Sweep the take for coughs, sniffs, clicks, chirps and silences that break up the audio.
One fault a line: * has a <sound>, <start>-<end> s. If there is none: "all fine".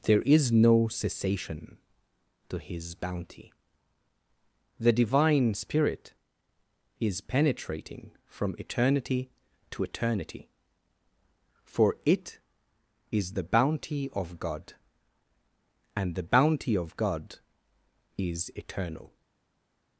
all fine